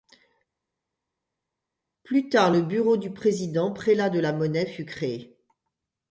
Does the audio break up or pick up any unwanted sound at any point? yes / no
no